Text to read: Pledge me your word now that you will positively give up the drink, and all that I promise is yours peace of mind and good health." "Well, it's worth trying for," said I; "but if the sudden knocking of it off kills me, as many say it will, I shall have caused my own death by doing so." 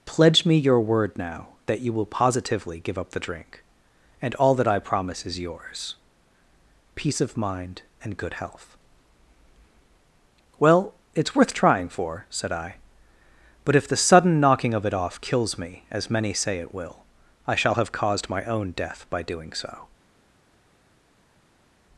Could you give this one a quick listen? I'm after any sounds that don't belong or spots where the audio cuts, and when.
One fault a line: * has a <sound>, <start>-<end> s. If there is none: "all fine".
all fine